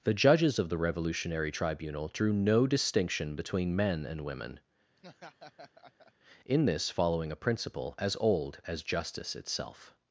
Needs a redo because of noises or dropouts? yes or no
yes